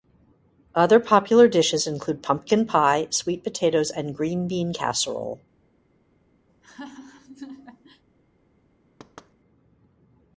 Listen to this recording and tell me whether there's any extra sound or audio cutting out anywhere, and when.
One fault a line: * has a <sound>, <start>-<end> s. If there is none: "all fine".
* has a laugh, 6.5-8.0 s
* has a thud, 9.0-9.3 s